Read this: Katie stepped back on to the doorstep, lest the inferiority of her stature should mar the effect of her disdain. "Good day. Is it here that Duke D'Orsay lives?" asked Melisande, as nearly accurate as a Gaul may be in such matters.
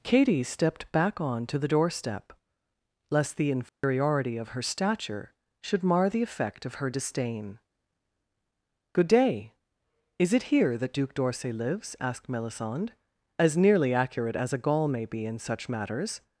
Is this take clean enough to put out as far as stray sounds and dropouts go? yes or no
no